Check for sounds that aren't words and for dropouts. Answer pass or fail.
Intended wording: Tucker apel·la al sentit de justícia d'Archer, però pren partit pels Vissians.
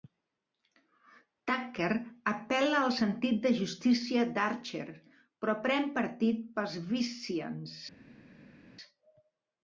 pass